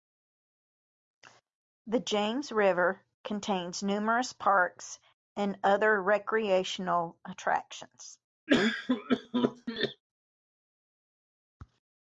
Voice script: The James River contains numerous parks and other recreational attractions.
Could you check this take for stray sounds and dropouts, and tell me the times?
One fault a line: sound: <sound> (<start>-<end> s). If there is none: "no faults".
sound: cough (8.5-10.0 s)